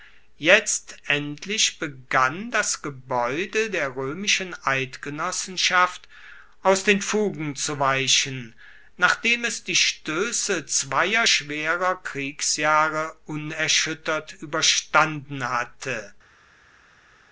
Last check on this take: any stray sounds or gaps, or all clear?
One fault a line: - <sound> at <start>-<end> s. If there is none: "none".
none